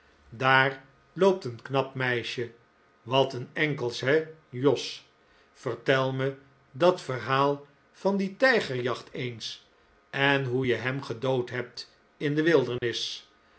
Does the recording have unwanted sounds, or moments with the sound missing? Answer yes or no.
yes